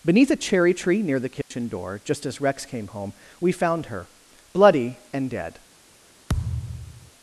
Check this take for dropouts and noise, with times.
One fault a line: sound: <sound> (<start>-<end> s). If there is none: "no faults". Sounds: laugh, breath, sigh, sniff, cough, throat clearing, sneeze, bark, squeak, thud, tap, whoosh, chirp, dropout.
sound: dropout (1.4-1.5 s)
sound: thud (6.3-7.1 s)